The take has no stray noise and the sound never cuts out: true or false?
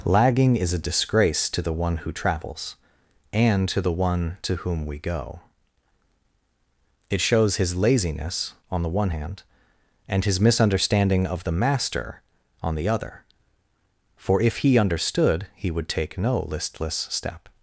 true